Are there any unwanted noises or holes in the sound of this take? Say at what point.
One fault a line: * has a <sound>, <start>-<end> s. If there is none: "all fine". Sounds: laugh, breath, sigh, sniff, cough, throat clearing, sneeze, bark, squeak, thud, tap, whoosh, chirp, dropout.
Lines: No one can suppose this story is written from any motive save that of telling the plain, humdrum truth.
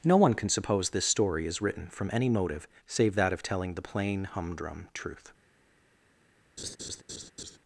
* has a laugh, 6.6-7.6 s